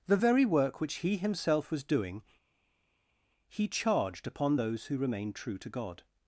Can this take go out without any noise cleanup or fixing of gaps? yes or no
yes